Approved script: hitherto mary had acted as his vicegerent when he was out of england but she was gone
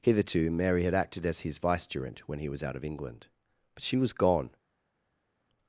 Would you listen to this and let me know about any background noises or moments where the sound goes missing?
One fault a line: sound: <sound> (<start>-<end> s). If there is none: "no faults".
no faults